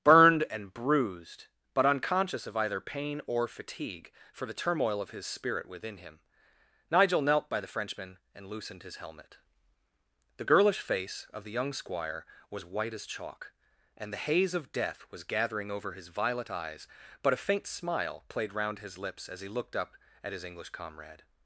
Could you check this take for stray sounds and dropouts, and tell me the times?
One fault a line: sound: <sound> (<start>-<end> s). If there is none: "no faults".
no faults